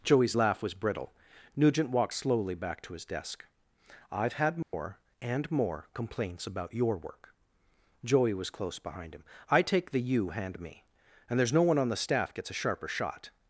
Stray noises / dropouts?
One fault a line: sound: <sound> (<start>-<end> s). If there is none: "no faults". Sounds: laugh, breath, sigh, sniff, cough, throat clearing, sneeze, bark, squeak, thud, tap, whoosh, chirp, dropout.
sound: dropout (4.6-4.7 s)